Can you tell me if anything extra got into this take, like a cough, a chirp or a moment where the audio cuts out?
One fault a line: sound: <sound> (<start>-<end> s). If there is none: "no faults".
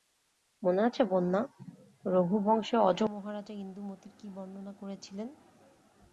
no faults